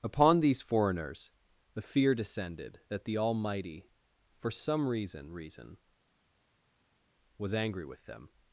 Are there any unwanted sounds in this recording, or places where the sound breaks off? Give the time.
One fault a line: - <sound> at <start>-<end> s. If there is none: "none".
none